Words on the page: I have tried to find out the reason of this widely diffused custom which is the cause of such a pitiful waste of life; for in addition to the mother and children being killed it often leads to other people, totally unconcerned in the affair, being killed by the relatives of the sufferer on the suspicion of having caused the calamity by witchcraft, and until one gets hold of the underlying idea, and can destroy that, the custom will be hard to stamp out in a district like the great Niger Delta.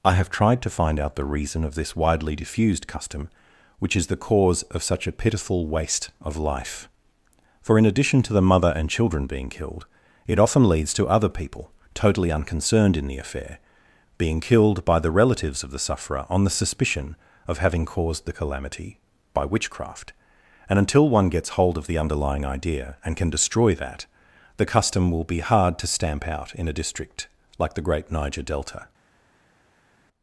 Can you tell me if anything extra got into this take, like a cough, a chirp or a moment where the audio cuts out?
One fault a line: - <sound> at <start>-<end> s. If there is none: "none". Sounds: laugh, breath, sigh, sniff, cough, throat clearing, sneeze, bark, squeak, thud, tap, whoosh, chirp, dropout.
none